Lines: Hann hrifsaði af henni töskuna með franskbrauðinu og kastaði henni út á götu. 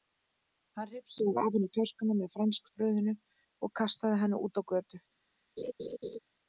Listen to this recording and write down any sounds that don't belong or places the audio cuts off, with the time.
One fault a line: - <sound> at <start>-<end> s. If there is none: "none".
- laugh at 5.6-6.2 s